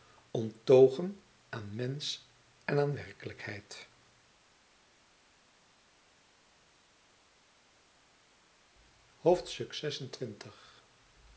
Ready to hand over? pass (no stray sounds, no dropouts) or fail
pass